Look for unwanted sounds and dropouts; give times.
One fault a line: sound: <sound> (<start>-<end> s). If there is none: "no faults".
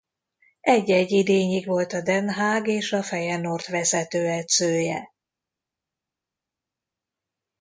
no faults